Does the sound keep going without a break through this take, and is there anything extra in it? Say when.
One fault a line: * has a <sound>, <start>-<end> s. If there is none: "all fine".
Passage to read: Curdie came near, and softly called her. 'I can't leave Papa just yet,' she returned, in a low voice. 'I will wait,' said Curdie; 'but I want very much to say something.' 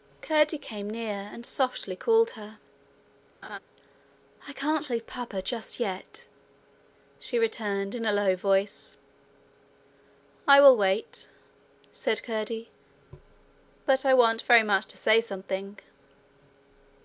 * has a laugh, 3.4-3.6 s